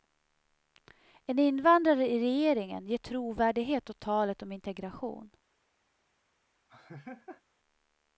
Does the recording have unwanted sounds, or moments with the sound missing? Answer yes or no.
yes